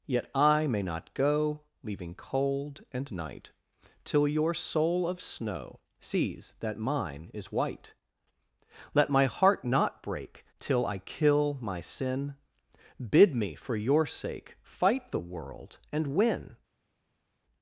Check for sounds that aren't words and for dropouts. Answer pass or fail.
pass